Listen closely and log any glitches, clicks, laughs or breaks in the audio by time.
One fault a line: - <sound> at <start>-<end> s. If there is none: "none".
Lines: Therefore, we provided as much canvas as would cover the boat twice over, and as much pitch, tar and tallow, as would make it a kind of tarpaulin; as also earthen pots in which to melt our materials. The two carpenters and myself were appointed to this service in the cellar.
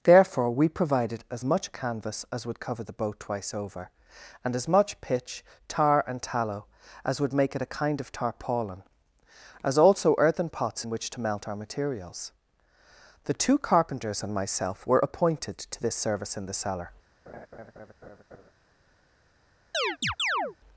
- laugh at 17.3-18.5 s
- chirp at 19.7-20.6 s